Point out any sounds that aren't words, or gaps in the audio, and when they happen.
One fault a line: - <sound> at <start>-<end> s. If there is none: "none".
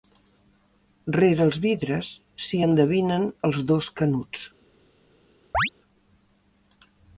- chirp at 5.5-5.7 s